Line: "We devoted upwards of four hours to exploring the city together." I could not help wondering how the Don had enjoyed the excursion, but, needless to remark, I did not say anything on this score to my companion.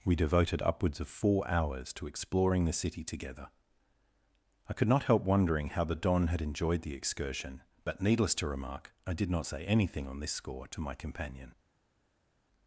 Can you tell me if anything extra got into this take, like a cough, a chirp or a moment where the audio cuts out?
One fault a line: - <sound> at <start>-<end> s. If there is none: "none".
none